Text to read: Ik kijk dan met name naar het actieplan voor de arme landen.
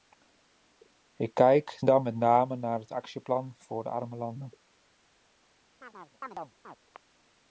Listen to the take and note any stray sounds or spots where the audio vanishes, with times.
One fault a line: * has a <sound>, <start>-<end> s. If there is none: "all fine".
* has a chirp, 5.8-6.8 s